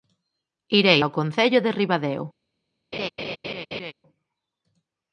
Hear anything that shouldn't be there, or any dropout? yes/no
yes